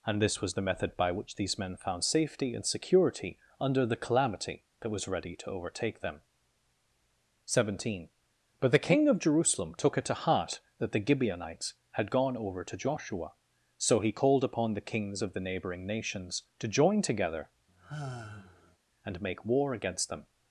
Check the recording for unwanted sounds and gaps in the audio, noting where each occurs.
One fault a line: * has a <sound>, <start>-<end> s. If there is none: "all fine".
* has a sigh, 17.7-18.8 s